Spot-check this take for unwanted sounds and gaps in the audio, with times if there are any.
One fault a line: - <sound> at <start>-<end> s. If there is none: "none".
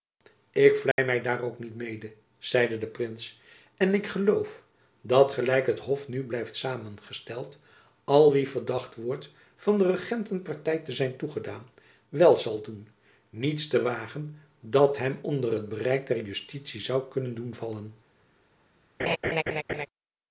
- dropout at 0.9-1.0 s
- laugh at 19.0-19.9 s